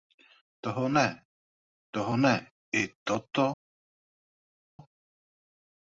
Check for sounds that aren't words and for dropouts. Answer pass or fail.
pass